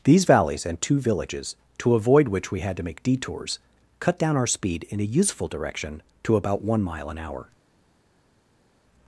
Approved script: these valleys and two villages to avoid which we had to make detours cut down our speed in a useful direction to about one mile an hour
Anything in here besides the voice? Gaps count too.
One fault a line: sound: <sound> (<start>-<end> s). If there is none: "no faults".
no faults